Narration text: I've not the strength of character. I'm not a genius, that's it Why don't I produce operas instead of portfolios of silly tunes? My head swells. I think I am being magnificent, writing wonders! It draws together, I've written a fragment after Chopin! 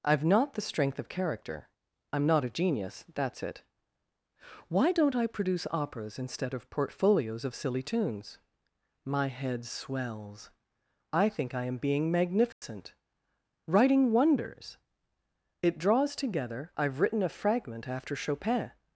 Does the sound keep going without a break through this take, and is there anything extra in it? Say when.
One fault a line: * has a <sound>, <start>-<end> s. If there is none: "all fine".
* has a dropout, 12.5-12.6 s